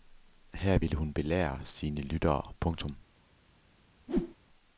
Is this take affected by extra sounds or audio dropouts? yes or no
yes